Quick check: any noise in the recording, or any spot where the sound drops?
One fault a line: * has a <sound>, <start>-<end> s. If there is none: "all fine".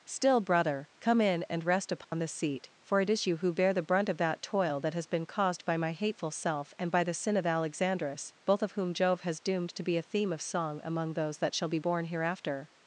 * has a dropout, 2.0-2.1 s